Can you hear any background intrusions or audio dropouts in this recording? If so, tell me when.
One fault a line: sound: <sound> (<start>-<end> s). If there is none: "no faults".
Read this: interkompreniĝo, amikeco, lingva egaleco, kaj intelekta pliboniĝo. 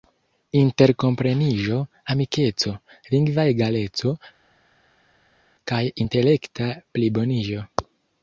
no faults